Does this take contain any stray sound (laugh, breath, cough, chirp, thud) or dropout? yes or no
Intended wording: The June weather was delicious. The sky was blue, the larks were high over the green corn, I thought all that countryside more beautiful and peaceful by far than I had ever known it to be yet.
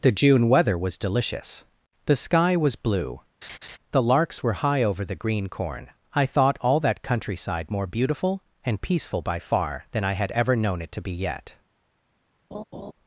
yes